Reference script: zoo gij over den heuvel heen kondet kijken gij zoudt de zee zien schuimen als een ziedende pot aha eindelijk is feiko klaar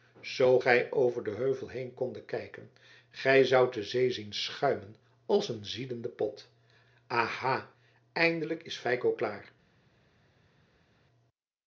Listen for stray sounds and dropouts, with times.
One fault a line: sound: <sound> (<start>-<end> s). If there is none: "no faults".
no faults